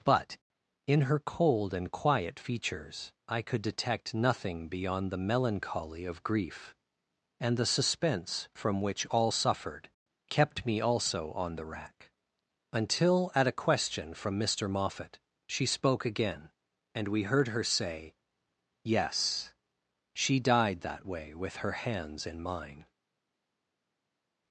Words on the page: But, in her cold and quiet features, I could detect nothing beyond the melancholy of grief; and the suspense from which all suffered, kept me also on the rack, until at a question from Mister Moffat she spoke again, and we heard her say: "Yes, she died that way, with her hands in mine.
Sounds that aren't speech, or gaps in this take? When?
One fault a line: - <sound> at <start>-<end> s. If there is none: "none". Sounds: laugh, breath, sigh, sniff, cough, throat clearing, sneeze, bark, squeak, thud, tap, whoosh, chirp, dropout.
none